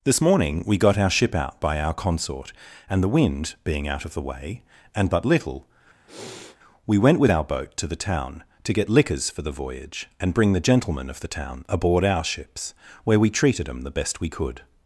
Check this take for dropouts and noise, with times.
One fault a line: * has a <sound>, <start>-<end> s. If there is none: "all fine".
* has a sniff, 6.1-6.6 s